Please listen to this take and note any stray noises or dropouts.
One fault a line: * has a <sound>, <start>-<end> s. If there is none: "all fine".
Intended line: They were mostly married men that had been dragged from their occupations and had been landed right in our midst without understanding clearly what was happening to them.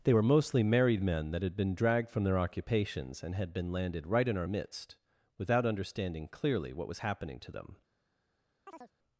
* has a chirp, 8.7-8.9 s